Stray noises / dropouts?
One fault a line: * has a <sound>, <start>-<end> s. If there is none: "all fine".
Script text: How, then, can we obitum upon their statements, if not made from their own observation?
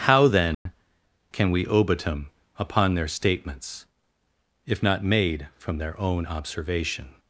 * has a dropout, 0.5-0.7 s